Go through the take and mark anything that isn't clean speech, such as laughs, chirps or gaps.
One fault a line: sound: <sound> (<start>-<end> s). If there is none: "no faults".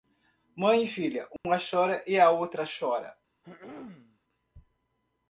sound: dropout (1.4-1.4 s)
sound: throat clearing (3.4-4.2 s)